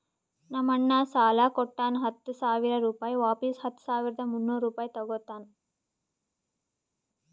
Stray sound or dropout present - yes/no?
no